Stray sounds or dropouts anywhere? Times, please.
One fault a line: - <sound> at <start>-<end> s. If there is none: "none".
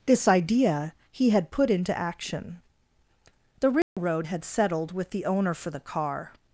- dropout at 3.8-4.0 s